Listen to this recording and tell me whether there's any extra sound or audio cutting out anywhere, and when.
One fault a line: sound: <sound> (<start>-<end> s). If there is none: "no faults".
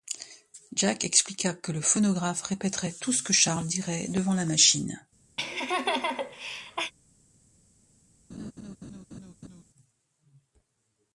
sound: laugh (5.4-6.9 s)
sound: laugh (8.3-9.6 s)